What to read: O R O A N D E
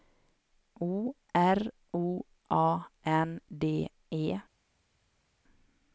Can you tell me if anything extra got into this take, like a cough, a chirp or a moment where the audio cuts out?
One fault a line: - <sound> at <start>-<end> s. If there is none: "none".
none